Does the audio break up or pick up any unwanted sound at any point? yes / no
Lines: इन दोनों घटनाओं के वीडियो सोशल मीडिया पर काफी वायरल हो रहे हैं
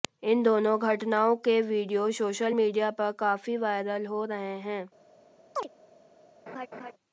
yes